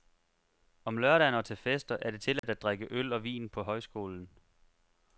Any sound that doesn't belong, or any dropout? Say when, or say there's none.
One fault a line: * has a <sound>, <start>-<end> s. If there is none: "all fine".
* has a dropout, 2.4-2.4 s